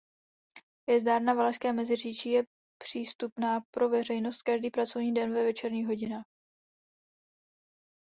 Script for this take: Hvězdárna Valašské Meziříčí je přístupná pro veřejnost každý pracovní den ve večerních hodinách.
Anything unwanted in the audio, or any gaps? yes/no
no